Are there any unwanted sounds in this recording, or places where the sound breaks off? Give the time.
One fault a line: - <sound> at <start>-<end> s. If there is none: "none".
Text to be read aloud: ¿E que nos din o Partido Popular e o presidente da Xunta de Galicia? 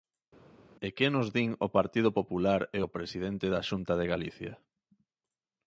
none